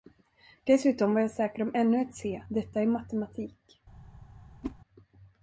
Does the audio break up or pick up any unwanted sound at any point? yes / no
yes